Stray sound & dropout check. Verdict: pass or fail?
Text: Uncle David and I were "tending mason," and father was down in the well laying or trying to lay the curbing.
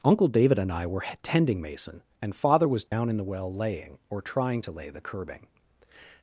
fail